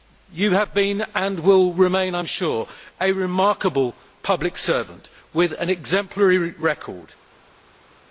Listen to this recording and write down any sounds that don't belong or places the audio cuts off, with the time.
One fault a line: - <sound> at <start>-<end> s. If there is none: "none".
none